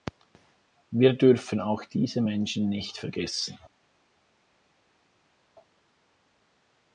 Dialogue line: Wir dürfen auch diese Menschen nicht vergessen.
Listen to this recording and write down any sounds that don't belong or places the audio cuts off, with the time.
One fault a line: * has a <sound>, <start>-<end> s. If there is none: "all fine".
all fine